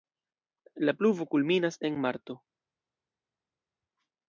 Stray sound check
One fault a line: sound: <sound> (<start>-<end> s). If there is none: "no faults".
no faults